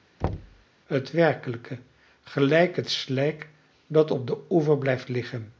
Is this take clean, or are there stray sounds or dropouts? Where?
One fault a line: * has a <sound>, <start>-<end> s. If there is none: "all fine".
* has a thud, 0.2-0.7 s